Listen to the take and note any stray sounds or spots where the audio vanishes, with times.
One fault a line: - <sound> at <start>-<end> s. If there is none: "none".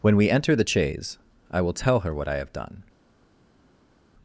none